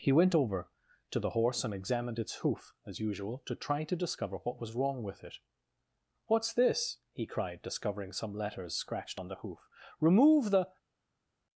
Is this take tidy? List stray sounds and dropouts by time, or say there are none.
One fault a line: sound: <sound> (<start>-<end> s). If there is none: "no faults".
no faults